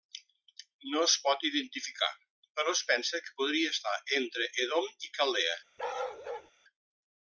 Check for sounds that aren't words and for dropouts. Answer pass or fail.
fail